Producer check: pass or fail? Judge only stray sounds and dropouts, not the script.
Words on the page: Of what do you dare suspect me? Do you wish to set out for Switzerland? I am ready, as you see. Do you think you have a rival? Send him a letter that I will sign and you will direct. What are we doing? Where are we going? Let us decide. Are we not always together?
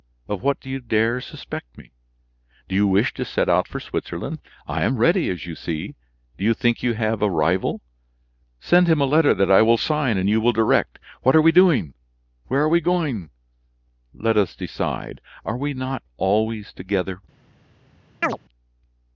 fail